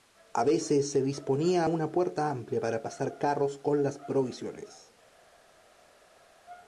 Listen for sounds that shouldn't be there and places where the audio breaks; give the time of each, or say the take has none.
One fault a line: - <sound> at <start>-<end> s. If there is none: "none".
none